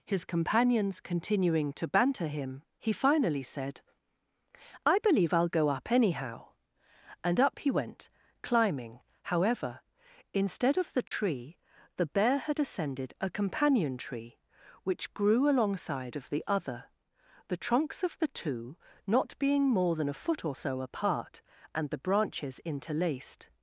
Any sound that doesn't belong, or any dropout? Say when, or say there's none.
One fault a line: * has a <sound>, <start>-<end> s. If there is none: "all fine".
* has a dropout, 11.1-11.1 s